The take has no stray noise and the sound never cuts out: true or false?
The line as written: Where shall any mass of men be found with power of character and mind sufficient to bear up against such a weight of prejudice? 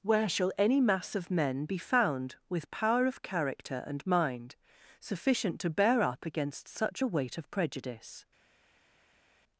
true